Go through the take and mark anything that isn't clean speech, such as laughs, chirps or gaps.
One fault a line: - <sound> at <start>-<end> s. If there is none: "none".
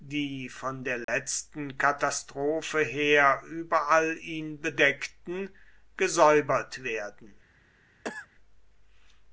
- dropout at 1.0-1.1 s
- cough at 8.0-8.3 s